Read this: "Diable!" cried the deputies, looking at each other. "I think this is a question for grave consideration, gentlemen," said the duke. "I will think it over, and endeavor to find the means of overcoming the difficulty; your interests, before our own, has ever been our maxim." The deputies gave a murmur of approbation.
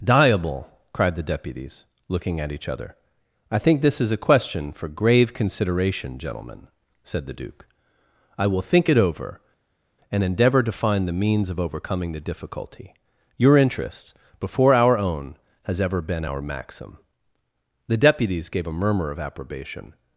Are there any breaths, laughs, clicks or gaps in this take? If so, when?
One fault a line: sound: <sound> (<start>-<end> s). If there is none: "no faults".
no faults